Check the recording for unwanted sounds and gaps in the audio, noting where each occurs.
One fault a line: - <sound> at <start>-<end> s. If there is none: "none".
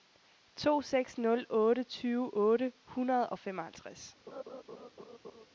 - laugh at 4.3-5.5 s